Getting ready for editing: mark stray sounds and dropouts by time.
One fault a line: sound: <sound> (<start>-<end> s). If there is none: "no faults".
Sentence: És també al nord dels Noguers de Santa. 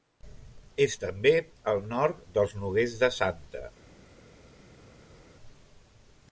no faults